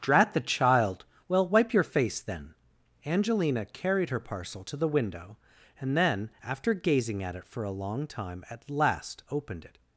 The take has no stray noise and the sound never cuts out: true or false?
true